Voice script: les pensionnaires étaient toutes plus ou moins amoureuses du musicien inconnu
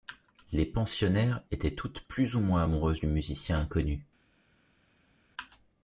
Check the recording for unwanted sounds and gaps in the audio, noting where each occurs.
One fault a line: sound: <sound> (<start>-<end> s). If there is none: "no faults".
no faults